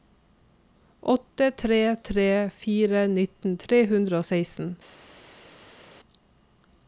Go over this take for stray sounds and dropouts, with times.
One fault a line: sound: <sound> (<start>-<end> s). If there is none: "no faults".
no faults